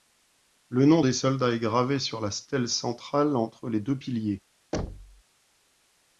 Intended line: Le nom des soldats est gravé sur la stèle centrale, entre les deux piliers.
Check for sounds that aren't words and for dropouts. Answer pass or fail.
fail